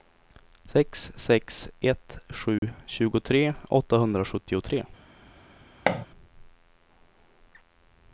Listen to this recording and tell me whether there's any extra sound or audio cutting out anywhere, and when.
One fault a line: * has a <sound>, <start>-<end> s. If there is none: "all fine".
* has a dropout, 2.6-2.6 s
* has a thud, 5.9-6.1 s